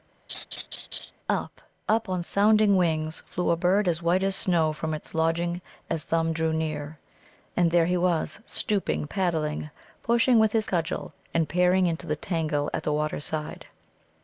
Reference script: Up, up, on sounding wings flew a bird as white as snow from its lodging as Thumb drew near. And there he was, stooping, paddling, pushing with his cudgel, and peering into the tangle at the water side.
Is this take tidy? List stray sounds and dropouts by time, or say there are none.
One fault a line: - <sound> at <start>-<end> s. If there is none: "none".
- laugh at 0.3-1.1 s